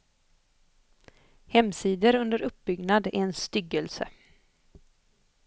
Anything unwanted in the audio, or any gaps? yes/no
no